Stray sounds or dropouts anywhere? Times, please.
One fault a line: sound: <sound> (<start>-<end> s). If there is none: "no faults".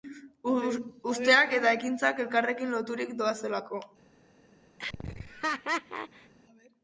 sound: laugh (4.8-6.3 s)